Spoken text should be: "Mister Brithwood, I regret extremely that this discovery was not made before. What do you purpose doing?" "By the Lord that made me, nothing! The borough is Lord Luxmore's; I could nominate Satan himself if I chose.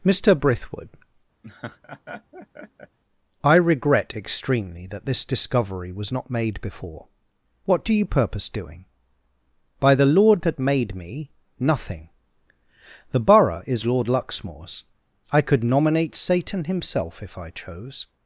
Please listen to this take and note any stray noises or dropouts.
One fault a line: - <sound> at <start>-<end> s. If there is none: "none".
- laugh at 1.4-3.0 s